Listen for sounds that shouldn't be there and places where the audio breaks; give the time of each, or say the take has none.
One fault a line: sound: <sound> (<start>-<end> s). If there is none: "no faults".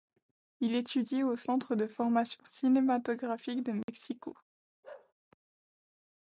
sound: dropout (3.8-3.9 s)
sound: bark (4.8-5.1 s)